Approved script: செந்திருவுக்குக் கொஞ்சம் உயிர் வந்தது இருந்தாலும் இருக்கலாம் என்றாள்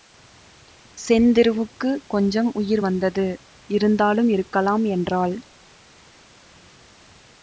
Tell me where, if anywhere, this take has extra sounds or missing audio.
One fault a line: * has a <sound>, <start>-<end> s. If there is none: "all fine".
all fine